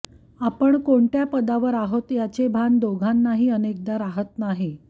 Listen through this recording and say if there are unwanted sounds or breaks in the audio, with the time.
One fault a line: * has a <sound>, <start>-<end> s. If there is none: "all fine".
all fine